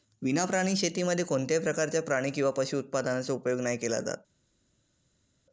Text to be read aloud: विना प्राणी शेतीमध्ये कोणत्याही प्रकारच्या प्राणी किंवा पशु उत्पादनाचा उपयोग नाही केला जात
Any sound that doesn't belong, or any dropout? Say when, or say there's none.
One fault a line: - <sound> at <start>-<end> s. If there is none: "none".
none